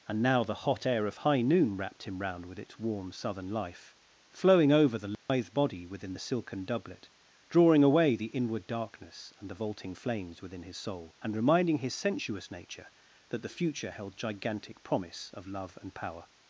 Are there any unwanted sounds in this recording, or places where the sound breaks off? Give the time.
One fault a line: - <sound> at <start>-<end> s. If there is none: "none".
- dropout at 5.1-5.3 s